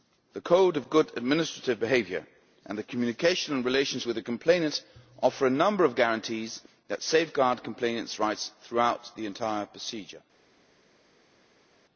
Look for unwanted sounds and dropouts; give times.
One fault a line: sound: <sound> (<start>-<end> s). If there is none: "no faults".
no faults